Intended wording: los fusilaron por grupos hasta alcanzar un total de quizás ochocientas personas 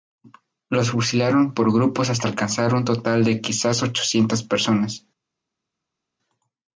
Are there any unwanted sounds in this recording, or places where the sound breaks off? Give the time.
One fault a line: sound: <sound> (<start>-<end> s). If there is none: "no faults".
no faults